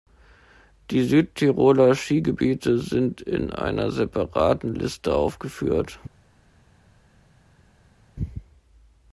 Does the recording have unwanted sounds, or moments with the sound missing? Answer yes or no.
no